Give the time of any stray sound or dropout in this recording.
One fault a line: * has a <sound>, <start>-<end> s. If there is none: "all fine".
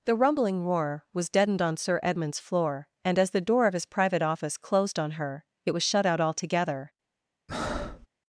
* has a breath, 7.5-8.1 s